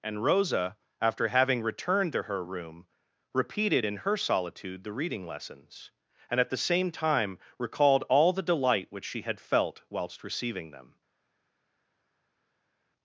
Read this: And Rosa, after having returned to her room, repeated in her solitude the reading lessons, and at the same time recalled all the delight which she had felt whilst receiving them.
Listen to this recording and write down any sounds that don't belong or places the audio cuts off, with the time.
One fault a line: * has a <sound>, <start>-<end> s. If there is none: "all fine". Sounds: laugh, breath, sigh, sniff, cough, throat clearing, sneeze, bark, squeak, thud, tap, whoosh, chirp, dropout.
all fine